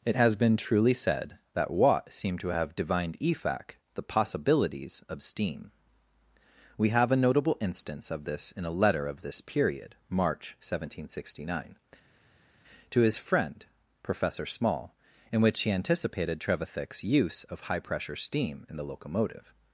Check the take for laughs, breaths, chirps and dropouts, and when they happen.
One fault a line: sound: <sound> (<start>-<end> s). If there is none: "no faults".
no faults